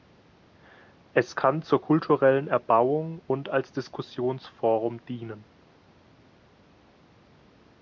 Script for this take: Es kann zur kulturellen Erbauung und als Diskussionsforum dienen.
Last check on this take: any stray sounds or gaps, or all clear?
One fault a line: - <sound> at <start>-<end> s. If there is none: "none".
none